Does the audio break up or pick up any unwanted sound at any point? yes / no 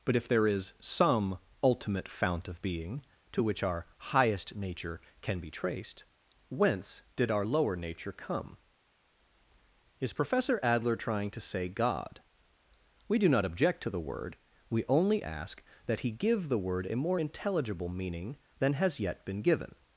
no